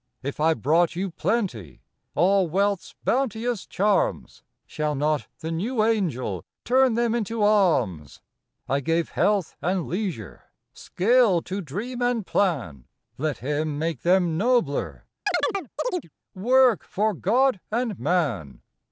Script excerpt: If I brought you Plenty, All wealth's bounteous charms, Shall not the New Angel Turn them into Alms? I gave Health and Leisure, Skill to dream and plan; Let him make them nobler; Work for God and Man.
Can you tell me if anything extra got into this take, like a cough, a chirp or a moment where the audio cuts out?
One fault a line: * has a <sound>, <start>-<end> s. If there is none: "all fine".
* has a chirp, 15.3-16.1 s